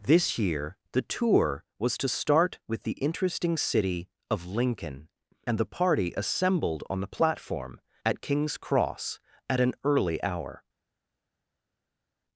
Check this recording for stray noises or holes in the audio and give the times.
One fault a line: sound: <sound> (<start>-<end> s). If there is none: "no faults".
no faults